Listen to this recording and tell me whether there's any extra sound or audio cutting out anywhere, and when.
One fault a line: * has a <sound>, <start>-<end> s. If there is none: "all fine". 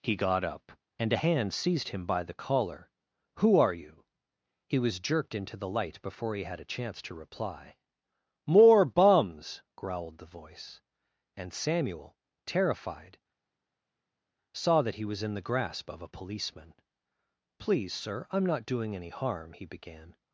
all fine